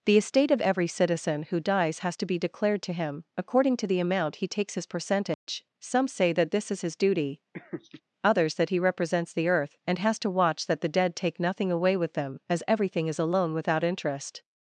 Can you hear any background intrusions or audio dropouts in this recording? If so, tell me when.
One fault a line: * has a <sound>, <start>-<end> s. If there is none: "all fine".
* has a dropout, 5.3-5.5 s
* has a laugh, 7.5-8.0 s